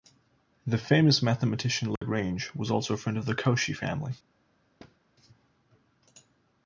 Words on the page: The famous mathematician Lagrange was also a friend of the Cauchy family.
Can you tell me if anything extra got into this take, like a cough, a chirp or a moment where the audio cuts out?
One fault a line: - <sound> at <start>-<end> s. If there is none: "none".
- dropout at 2.0-2.0 s
- thud at 4.8-5.0 s